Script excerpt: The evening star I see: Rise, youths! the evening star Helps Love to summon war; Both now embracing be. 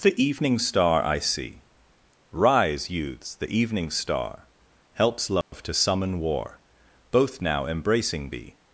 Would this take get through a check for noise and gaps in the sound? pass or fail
fail